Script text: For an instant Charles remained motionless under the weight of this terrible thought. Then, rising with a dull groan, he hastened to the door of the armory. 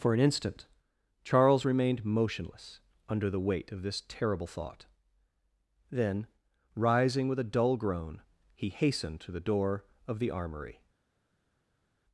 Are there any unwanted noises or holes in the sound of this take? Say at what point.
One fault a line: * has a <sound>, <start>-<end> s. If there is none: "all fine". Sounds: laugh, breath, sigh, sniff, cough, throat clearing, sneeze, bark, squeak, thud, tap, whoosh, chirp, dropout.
all fine